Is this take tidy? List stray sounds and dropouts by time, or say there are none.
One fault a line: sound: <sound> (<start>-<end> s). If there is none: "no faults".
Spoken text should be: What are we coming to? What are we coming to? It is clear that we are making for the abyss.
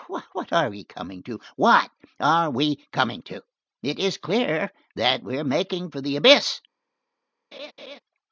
sound: laugh (7.5-8.0 s)